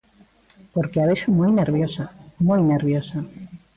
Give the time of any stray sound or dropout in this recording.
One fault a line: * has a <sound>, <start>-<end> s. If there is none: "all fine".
all fine